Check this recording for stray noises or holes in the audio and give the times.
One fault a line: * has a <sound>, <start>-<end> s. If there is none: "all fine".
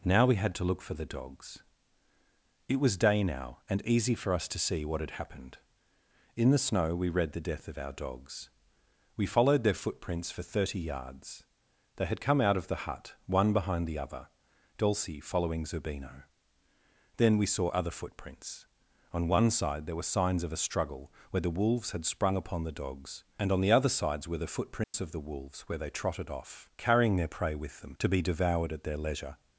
* has a dropout, 24.8-24.9 s